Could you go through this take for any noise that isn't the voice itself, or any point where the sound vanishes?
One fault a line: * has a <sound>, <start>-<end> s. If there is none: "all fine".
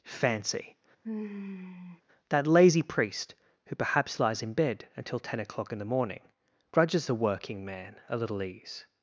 * has a sigh, 1.0-2.0 s